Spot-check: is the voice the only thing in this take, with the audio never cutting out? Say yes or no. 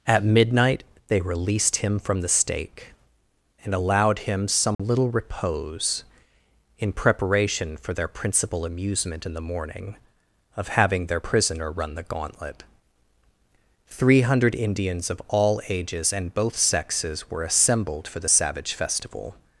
no